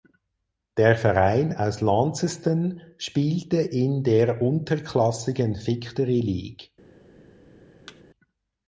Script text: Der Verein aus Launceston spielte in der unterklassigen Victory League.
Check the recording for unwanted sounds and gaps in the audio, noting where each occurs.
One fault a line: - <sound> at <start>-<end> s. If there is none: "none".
- thud at 7.9-8.0 s